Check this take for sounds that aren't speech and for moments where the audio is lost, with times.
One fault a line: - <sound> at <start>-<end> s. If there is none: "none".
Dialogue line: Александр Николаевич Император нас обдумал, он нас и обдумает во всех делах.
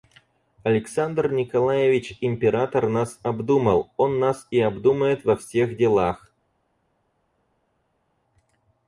none